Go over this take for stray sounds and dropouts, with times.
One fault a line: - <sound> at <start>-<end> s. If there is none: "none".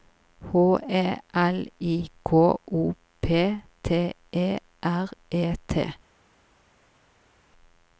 none